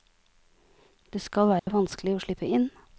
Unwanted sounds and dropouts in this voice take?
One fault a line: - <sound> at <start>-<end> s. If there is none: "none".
- dropout at 1.6-1.7 s